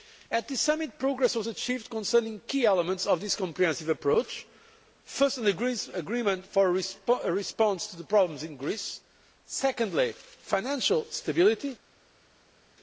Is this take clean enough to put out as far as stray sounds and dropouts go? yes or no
yes